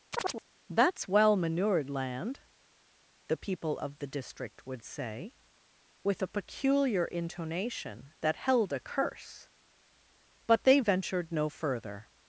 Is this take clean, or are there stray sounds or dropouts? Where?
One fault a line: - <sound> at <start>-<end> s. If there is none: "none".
- chirp at 0.1-0.4 s